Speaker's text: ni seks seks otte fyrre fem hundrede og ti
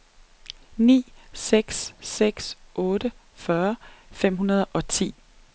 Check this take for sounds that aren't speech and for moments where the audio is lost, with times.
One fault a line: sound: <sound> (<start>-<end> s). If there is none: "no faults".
no faults